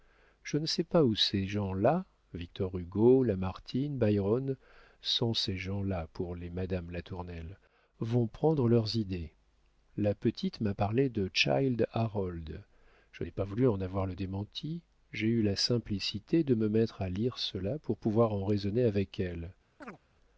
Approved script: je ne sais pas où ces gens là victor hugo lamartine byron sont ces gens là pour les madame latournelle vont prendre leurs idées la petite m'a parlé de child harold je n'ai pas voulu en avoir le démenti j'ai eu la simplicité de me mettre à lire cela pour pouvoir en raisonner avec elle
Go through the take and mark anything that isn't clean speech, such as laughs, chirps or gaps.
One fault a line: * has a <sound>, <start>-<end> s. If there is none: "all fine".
* has a chirp, 19.8-20.0 s